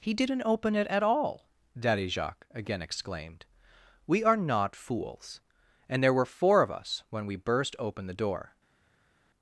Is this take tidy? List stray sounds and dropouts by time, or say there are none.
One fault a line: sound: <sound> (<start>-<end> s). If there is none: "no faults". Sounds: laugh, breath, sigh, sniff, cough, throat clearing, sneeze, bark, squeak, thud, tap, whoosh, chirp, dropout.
no faults